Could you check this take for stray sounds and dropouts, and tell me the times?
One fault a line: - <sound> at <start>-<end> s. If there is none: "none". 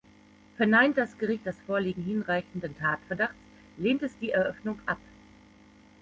none